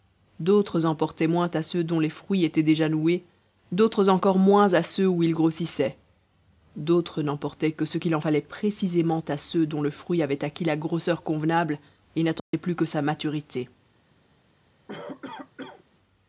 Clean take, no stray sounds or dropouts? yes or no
no